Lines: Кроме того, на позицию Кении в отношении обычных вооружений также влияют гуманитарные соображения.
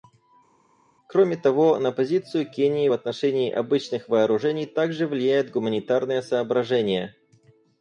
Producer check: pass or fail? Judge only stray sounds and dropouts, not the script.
pass